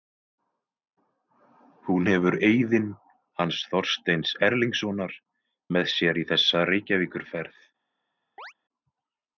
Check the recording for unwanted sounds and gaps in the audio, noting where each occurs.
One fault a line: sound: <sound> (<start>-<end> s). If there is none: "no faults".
sound: chirp (8.4-8.5 s)